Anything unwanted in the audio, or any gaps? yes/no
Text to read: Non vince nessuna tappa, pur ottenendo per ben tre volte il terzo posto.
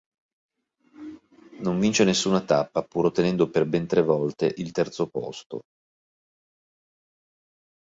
no